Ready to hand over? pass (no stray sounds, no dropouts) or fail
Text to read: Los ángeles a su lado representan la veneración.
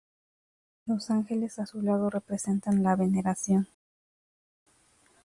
pass